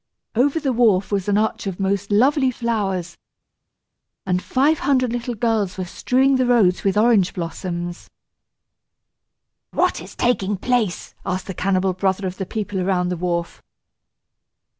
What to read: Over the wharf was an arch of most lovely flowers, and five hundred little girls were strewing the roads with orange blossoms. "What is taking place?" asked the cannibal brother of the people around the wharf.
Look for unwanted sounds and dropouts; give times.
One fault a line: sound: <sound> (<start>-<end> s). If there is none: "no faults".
no faults